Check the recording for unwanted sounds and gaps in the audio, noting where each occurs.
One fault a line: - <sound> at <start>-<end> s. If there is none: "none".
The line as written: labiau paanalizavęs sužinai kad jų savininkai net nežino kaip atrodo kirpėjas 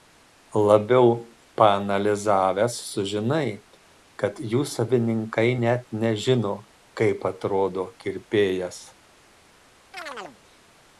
- chirp at 9.9-10.4 s